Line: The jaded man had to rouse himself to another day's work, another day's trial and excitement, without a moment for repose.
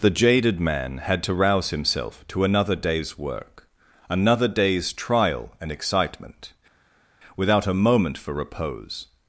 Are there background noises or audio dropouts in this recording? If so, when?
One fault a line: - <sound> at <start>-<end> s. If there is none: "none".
none